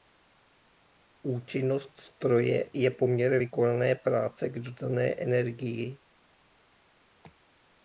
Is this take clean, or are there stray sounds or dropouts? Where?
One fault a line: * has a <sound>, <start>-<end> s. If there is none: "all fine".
all fine